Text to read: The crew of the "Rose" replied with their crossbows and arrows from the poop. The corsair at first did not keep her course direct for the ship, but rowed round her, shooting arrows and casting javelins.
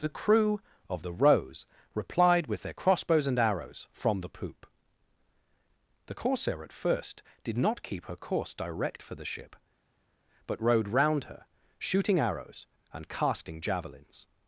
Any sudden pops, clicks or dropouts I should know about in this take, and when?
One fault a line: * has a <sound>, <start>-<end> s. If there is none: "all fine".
all fine